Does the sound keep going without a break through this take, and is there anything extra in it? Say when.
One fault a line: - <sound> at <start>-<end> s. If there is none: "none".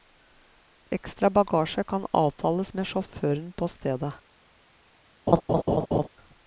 - laugh at 5.3-6.1 s